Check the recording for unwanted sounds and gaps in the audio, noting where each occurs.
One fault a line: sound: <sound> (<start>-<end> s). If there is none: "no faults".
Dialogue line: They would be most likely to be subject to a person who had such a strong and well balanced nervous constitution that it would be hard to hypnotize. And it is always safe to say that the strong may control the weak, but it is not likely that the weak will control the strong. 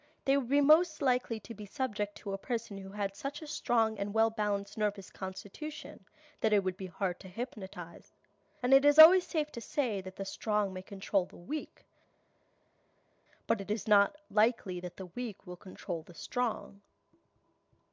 no faults